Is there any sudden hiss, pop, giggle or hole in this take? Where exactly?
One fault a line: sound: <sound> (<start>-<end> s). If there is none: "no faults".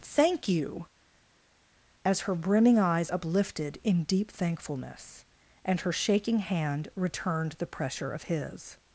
no faults